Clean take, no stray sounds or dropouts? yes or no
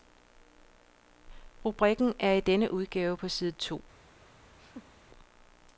no